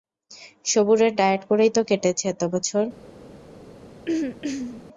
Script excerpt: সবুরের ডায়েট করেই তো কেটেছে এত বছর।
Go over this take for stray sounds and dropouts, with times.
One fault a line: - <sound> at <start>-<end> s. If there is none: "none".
- throat clearing at 4.1-4.8 s